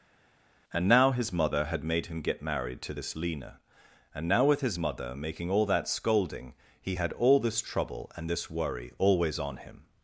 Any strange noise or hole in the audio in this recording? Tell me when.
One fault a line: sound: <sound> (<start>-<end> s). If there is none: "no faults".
no faults